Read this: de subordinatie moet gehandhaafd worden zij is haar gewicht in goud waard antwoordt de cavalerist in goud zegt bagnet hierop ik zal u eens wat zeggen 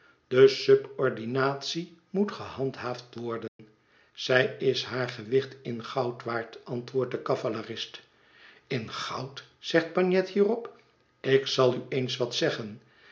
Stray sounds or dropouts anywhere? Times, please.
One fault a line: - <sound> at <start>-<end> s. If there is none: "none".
- dropout at 3.5-3.6 s